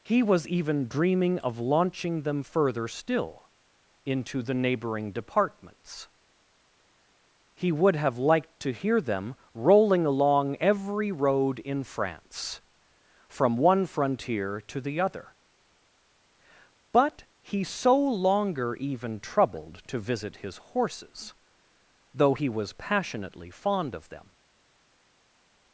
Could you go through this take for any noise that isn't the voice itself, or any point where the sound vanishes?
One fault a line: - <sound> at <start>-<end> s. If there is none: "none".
none